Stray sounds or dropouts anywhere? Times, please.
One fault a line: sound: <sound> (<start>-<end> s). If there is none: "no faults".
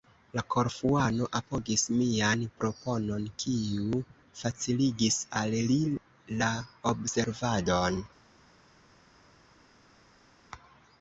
no faults